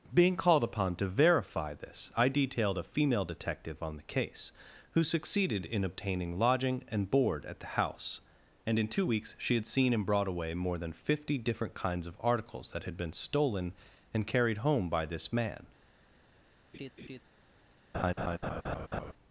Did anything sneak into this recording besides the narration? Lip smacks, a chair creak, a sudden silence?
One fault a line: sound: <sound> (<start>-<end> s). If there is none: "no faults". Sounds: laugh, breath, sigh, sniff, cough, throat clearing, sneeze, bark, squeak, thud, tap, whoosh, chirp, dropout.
sound: laugh (16.7-17.2 s)
sound: laugh (17.9-19.1 s)